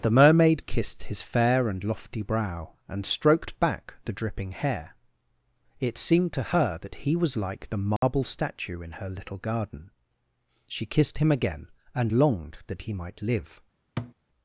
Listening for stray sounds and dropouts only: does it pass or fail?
fail